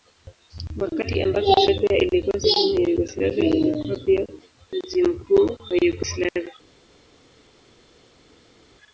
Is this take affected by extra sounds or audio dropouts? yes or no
no